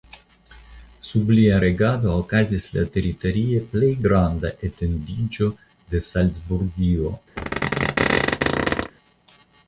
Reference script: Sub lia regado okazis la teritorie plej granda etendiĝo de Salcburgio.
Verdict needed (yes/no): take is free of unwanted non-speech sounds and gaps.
no